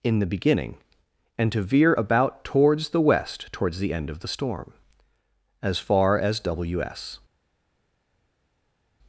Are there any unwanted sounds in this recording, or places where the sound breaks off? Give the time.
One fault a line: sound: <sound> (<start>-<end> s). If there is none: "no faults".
no faults